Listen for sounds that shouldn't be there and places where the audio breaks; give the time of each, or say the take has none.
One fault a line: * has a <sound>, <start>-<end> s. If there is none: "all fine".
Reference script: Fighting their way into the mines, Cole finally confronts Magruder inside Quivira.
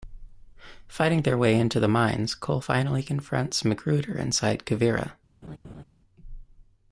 * has a laugh, 5.4-5.8 s